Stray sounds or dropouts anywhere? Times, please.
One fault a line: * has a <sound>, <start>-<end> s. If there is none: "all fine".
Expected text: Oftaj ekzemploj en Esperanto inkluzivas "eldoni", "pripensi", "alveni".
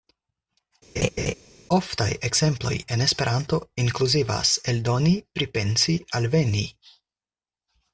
* has a laugh, 1.0-1.3 s